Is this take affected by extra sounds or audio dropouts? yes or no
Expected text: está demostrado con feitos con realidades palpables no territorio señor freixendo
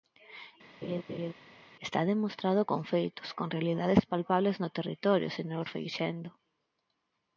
yes